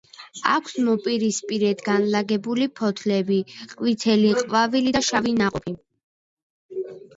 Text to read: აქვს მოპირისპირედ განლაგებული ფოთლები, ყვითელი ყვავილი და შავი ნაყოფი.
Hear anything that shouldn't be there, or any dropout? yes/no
no